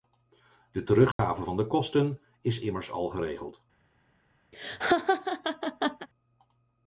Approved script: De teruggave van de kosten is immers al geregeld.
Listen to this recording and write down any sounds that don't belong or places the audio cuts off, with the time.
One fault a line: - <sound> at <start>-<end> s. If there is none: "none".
- dropout at 1.1-1.2 s
- laugh at 4.5-6.1 s